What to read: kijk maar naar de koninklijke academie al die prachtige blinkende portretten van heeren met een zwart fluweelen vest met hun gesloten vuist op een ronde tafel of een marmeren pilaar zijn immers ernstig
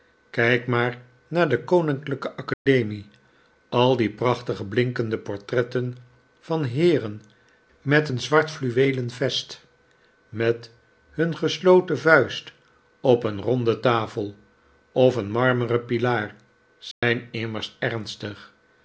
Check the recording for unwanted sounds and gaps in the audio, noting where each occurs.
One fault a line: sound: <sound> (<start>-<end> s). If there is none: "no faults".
sound: dropout (2.5-2.7 s)
sound: dropout (16.9-17.0 s)